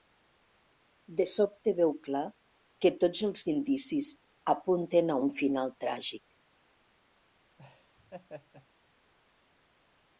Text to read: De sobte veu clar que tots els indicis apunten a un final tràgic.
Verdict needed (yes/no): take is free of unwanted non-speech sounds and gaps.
no